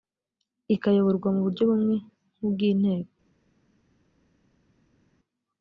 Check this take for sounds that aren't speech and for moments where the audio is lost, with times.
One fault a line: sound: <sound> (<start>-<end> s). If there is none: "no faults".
no faults